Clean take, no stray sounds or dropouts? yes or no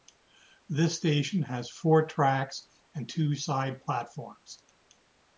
yes